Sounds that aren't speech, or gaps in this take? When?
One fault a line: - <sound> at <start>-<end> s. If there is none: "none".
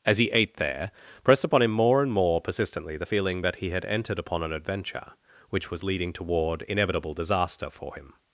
none